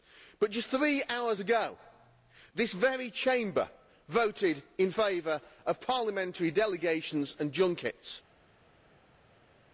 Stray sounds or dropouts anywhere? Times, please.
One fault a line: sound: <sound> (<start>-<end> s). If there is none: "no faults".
no faults